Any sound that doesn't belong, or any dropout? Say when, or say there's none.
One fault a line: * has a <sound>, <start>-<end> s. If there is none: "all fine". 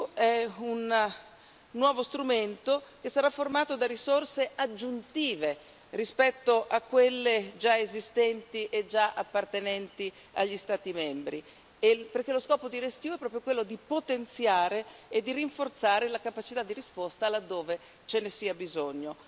all fine